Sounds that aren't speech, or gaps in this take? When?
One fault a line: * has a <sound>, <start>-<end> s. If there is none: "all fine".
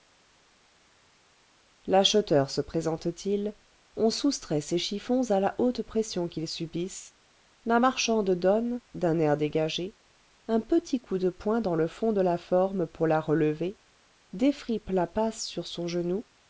all fine